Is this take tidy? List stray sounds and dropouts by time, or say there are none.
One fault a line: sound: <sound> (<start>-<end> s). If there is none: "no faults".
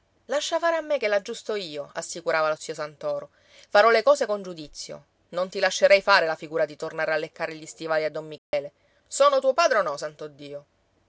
sound: dropout (8.4-8.5 s)